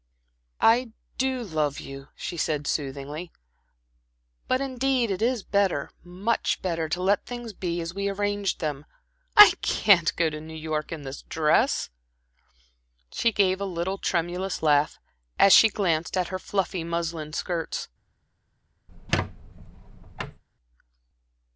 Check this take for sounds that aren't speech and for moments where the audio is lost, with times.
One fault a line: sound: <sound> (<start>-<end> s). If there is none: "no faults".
sound: squeak (18.9-20.4 s)